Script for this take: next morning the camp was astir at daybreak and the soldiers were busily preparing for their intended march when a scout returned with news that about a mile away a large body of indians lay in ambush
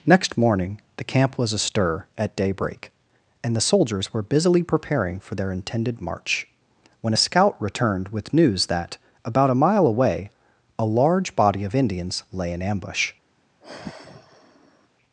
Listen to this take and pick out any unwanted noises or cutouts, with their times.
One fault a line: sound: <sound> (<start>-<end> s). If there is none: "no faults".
sound: sigh (13.6-14.9 s)